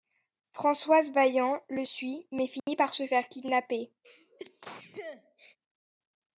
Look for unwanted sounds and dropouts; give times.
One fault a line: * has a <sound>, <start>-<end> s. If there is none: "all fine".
* has a dropout, 2.6-2.7 s
* has a sneeze, 4.0-5.6 s